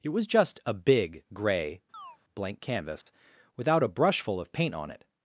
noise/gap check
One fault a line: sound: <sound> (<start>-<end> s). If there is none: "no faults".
sound: chirp (1.9-2.2 s)
sound: dropout (3.0-3.1 s)